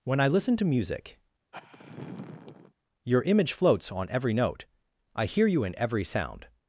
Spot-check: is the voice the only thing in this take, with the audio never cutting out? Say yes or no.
no